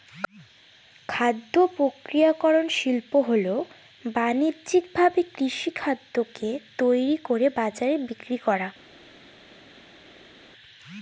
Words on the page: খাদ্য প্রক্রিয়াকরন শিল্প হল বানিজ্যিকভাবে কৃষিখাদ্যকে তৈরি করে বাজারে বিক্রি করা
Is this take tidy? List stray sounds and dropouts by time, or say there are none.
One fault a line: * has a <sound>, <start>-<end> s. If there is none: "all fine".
all fine